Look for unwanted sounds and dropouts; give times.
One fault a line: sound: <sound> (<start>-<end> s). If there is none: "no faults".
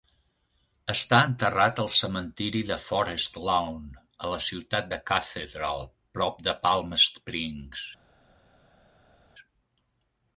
no faults